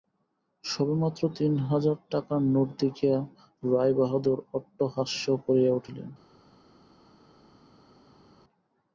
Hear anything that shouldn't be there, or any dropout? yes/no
no